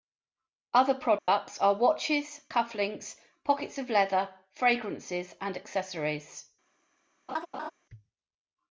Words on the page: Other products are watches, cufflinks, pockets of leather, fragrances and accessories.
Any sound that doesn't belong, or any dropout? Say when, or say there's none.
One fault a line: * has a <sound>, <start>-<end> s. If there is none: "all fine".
* has a dropout, 1.2-1.3 s
* has a laugh, 7.3-7.7 s